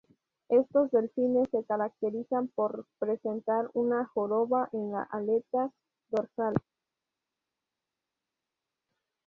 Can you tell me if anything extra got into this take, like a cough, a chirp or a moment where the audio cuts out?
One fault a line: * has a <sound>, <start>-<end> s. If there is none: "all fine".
all fine